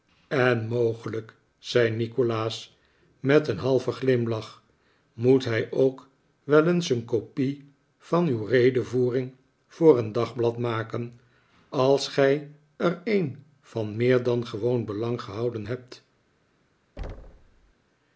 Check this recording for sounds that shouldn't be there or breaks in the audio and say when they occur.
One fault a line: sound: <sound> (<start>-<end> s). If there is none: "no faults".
sound: thud (17.0-17.7 s)